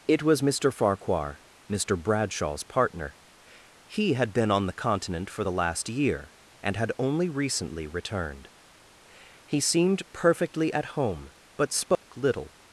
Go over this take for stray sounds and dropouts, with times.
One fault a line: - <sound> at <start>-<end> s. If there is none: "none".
- dropout at 12.0-12.1 s